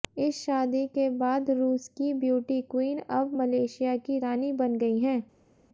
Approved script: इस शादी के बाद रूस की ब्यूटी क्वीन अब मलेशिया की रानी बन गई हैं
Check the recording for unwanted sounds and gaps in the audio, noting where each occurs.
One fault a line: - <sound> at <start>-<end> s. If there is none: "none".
none